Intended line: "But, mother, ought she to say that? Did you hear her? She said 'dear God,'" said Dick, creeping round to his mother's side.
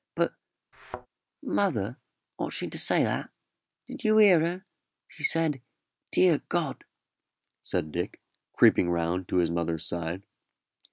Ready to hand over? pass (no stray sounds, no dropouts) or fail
fail